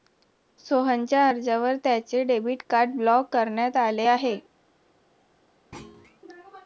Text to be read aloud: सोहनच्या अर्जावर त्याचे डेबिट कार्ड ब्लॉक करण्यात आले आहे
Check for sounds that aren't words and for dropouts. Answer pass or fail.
fail